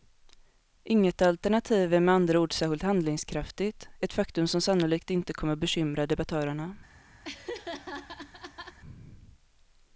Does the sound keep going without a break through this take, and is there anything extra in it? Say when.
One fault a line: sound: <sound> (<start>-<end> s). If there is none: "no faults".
sound: laugh (7.2-8.8 s)